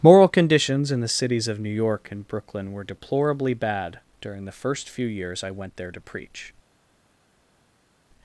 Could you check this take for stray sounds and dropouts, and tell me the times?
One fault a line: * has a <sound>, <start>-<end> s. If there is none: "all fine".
all fine